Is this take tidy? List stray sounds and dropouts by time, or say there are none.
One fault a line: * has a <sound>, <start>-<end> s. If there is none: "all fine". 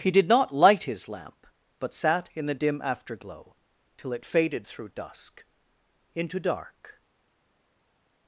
all fine